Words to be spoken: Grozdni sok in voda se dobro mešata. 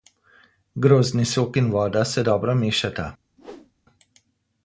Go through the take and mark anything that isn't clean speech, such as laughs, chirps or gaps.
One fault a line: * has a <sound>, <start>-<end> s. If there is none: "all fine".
* has a whoosh, 3.4-3.7 s